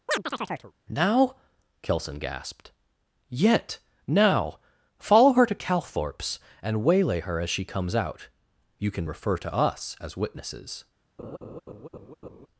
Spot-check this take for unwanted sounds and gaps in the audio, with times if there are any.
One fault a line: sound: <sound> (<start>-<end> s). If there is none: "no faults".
sound: chirp (0.1-0.7 s)
sound: laugh (11.2-12.5 s)